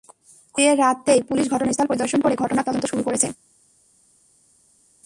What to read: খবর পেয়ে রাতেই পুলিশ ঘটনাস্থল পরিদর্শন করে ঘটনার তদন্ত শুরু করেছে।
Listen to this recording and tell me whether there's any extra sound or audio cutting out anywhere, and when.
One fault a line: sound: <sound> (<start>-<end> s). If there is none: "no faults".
no faults